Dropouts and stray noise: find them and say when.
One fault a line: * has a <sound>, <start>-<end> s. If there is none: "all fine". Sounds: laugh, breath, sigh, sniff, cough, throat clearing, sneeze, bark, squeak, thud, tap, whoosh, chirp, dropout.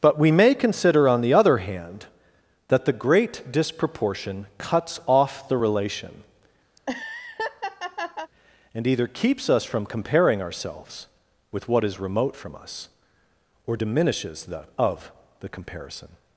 * has a laugh, 6.8-8.3 s